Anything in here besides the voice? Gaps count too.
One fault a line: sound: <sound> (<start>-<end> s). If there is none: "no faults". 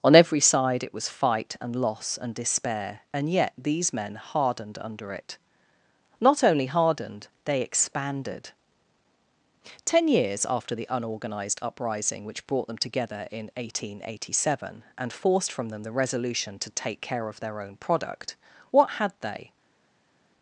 no faults